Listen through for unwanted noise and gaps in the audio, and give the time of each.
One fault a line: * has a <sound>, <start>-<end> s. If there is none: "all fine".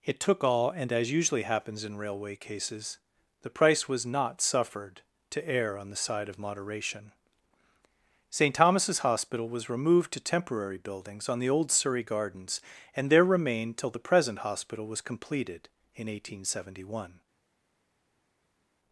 all fine